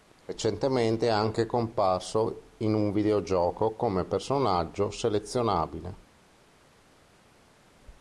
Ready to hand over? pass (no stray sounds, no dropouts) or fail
pass